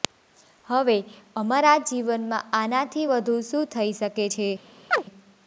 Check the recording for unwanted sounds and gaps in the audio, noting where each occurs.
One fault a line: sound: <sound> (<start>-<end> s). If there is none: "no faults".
sound: chirp (4.9-5.0 s)